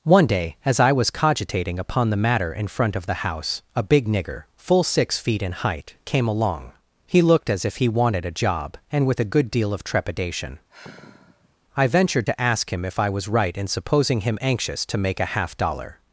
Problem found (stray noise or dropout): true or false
true